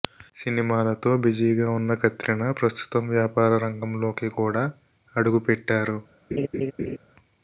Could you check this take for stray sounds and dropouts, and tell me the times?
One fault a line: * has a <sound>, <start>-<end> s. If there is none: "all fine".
* has a laugh, 6.3-7.0 s